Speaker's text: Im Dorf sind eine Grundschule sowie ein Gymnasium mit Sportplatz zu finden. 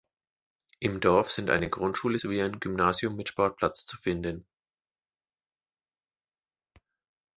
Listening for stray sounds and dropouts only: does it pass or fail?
pass